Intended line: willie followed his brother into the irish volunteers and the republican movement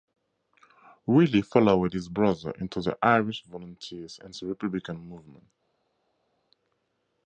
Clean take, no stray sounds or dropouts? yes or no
yes